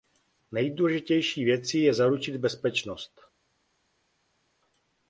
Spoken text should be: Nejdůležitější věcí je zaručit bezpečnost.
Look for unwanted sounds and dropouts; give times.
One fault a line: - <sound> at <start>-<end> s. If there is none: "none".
none